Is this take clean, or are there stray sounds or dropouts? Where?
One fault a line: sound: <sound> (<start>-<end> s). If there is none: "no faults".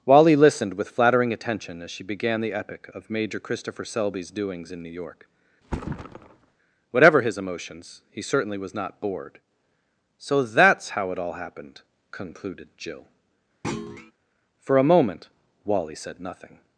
sound: thud (5.6-6.6 s)
sound: thud (13.6-14.1 s)